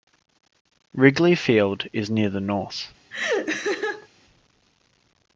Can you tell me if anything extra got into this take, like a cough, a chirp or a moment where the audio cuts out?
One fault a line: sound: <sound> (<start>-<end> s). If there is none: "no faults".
sound: laugh (3.1-4.1 s)